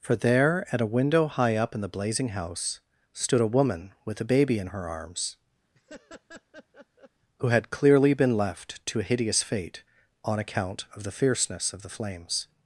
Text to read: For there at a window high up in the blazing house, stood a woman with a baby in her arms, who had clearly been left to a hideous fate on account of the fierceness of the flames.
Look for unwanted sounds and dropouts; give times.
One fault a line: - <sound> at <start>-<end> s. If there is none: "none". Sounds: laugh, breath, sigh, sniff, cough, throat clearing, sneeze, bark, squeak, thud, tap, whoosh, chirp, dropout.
- laugh at 5.7-7.1 s